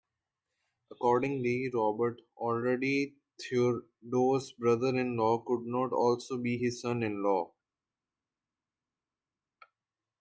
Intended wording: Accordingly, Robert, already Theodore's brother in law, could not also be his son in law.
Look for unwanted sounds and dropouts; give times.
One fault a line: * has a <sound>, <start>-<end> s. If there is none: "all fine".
all fine